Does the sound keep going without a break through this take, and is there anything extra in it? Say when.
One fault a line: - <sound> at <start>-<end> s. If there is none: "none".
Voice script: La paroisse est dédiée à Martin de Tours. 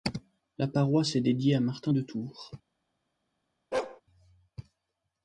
- bark at 3.7-4.0 s